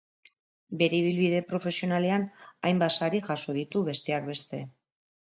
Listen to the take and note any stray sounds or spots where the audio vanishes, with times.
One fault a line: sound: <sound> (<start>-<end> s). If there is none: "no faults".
no faults